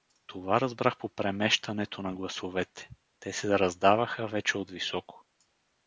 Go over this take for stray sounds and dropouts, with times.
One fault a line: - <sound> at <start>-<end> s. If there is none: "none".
none